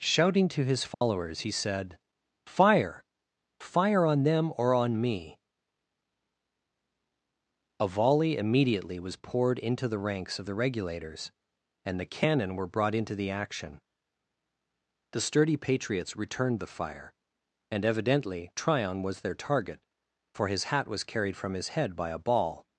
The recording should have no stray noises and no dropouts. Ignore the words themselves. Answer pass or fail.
fail